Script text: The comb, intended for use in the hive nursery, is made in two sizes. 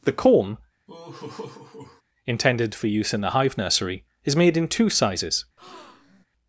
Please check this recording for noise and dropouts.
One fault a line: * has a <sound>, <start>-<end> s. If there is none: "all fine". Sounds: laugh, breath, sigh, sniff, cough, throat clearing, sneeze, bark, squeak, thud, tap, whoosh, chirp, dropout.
* has a laugh, 0.9-2.0 s
* has a breath, 5.6-6.3 s